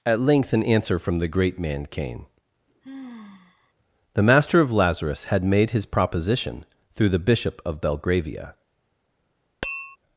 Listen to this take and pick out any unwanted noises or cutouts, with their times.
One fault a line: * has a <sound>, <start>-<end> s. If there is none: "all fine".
* has a sigh, 2.7-3.7 s
* has a tap, 9.6-10.0 s